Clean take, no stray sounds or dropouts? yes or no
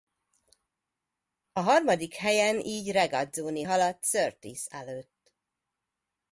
yes